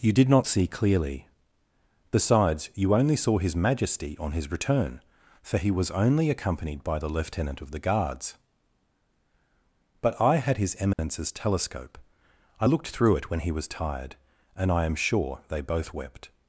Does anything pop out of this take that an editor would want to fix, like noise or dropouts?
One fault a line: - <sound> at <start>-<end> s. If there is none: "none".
- dropout at 10.9-11.0 s